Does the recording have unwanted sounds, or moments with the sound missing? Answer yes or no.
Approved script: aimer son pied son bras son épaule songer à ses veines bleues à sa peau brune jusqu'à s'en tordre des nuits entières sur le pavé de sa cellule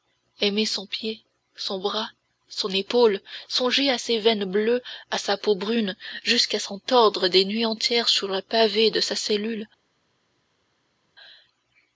no